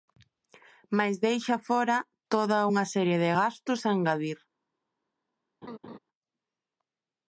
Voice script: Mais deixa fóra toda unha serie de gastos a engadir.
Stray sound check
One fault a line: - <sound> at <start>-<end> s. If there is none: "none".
- laugh at 5.6-6.0 s